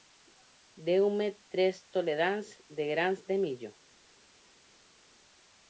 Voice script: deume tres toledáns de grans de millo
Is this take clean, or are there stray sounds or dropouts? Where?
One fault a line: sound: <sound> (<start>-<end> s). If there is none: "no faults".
no faults